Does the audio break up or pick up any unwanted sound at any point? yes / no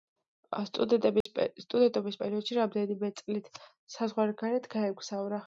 yes